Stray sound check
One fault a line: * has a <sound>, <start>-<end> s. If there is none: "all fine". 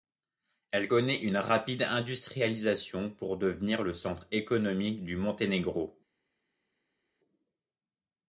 all fine